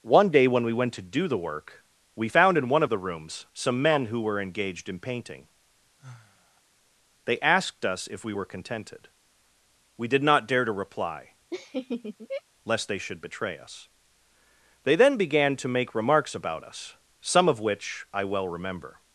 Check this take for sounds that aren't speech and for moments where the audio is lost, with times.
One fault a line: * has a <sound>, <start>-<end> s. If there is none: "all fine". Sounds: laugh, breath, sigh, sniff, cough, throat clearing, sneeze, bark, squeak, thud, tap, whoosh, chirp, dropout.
* has a sigh, 6.0-6.6 s
* has a laugh, 11.5-12.4 s